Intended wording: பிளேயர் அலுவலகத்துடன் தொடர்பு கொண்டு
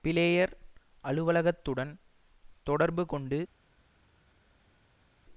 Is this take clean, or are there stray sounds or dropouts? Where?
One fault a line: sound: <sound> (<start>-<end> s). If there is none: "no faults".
no faults